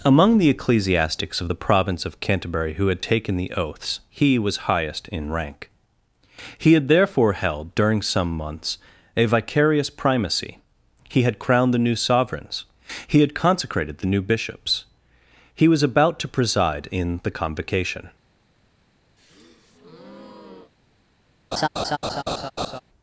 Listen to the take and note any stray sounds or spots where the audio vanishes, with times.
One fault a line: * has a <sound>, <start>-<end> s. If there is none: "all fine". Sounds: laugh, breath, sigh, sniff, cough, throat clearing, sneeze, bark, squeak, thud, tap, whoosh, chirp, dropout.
* has a breath, 19.2-20.7 s
* has a laugh, 21.5-22.8 s